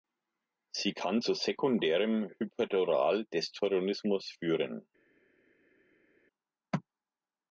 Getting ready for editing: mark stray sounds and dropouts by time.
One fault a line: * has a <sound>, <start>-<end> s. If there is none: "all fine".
all fine